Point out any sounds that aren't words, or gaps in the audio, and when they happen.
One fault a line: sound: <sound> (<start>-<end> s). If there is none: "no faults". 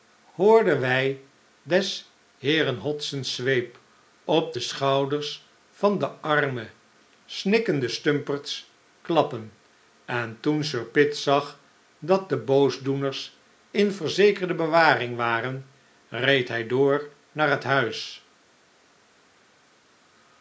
no faults